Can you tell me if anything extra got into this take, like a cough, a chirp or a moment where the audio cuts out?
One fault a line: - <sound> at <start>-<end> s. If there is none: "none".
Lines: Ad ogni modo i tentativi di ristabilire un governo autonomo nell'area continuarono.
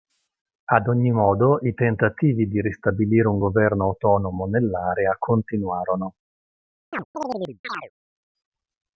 - chirp at 6.9-7.9 s